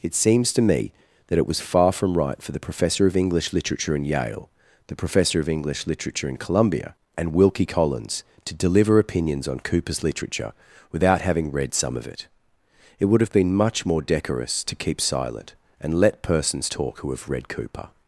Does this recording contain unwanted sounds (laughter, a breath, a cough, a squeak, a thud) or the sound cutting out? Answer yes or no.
no